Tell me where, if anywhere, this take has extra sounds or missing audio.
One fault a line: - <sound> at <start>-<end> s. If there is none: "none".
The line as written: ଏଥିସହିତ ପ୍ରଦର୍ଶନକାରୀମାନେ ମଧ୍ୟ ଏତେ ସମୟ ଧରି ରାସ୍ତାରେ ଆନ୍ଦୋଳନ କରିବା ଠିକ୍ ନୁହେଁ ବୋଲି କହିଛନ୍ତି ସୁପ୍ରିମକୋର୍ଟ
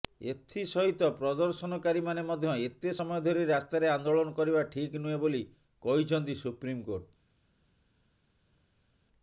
none